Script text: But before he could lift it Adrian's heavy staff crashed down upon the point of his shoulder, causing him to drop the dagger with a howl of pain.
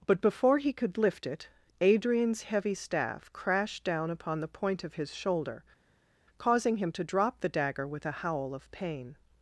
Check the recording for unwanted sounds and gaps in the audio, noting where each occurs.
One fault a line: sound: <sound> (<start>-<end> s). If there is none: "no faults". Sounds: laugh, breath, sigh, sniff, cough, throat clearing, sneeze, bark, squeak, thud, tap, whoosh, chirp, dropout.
no faults